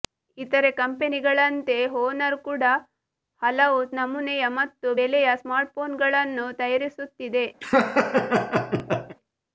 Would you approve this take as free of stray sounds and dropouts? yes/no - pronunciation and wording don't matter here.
no